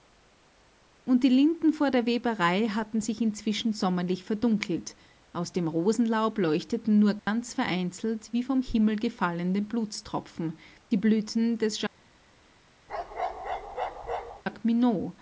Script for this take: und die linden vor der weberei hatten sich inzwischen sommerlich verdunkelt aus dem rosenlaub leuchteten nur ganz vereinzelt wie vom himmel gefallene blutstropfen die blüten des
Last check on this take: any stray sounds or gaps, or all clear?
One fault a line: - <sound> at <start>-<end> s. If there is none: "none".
- dropout at 7.2-7.3 s
- bark at 12.9-14.4 s